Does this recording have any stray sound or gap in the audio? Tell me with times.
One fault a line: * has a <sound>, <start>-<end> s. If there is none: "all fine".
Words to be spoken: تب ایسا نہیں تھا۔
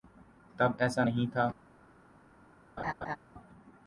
* has a laugh, 2.8-3.2 s